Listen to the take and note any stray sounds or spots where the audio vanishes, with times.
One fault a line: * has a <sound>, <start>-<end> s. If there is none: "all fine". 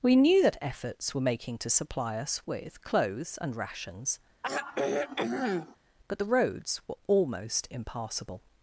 * has a sigh, 4.4-5.8 s